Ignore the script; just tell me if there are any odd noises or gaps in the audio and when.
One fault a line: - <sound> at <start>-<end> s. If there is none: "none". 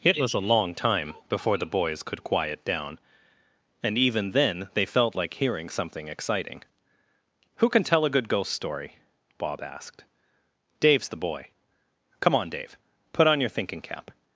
none